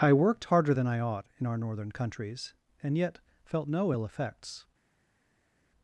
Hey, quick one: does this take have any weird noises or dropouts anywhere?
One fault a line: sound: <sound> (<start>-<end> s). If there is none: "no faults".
no faults